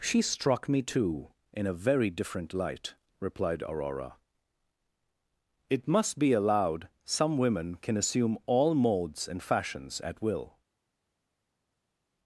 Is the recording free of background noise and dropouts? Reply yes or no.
yes